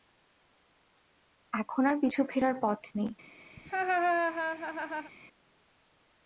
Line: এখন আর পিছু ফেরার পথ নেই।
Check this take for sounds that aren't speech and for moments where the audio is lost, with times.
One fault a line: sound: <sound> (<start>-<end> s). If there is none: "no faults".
sound: laugh (3.6-5.1 s)